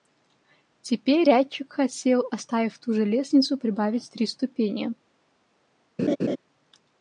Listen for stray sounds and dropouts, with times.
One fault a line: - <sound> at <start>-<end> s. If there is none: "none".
- laugh at 6.0-6.4 s